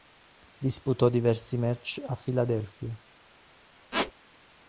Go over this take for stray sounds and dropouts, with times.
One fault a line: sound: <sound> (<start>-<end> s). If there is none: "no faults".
sound: squeak (3.9-4.1 s)